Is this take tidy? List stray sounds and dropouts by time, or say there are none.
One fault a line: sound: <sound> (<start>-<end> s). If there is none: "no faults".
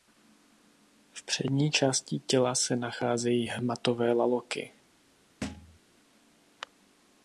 sound: thud (5.4-5.8 s)